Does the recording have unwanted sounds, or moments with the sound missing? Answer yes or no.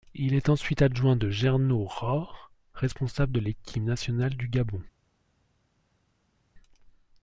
no